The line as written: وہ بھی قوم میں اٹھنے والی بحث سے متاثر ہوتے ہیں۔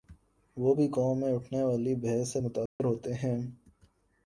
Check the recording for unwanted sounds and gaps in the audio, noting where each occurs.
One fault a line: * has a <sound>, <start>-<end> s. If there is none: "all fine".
* has a dropout, 2.7-2.8 s